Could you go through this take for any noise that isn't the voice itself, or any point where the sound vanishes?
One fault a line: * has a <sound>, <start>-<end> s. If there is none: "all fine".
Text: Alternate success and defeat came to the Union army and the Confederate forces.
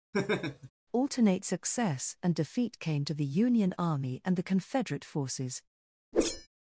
* has a laugh, 0.1-0.7 s
* has a whoosh, 6.1-6.5 s